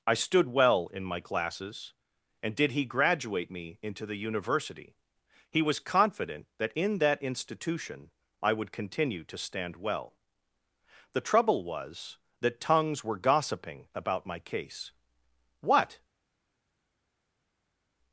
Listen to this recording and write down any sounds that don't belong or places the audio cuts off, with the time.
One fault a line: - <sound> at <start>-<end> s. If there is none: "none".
none